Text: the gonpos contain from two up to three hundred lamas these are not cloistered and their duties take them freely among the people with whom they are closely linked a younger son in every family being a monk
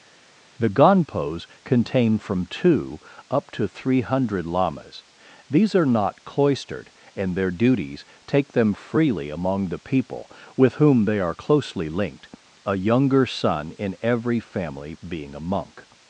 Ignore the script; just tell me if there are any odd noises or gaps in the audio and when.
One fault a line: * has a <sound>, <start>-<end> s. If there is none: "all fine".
all fine